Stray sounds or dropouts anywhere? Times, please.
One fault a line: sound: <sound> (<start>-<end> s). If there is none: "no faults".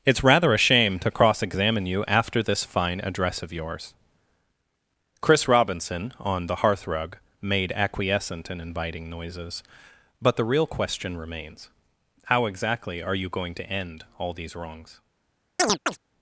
sound: chirp (15.6-16.0 s)